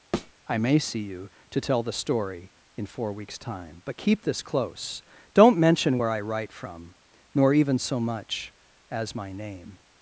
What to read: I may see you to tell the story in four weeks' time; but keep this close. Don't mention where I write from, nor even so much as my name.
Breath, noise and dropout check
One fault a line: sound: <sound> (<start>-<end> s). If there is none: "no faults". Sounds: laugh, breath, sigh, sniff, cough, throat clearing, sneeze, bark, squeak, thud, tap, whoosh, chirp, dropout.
sound: thud (0.1-0.3 s)